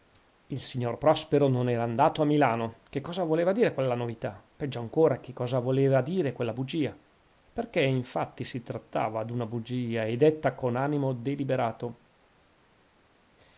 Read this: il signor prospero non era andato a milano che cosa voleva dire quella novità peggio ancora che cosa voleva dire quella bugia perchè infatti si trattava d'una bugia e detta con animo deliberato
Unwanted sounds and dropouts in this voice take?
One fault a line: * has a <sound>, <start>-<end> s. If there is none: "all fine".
all fine